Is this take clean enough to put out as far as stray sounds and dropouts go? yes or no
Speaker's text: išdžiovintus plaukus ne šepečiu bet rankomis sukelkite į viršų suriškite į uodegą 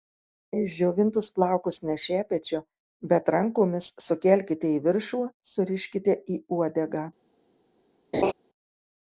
no